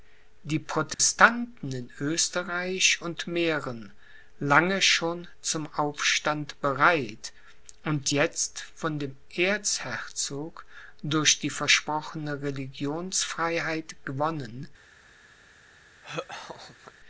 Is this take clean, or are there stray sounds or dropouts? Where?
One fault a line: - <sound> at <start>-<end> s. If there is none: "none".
- dropout at 0.9-1.0 s
- laugh at 16.0-16.9 s